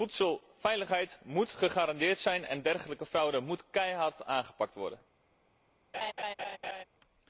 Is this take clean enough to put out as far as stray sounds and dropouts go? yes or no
no